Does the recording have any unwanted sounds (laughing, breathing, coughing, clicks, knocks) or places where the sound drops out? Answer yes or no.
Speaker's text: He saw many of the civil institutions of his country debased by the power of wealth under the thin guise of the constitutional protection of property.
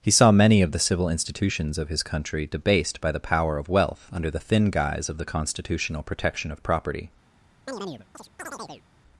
yes